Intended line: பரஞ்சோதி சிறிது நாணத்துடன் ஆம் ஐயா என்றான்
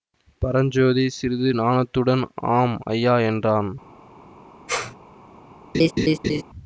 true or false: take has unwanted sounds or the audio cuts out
true